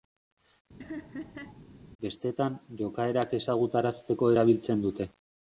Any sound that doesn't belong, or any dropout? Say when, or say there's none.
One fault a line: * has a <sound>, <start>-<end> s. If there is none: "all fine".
* has a laugh, 0.8-1.6 s